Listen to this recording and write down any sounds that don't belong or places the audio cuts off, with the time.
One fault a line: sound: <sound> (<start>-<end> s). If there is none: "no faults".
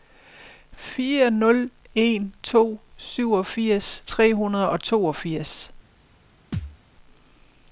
sound: thud (6.5-6.8 s)